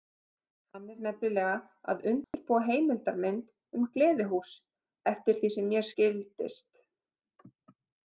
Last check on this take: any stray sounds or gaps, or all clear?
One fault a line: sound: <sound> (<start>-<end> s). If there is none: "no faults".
sound: dropout (2.2-2.3 s)